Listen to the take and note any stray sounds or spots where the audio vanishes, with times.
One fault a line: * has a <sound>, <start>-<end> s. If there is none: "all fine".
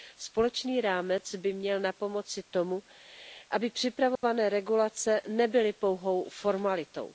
* has a dropout, 4.2-4.2 s